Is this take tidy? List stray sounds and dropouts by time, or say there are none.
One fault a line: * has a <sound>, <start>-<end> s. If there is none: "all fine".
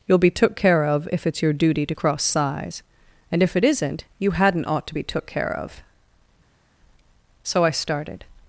all fine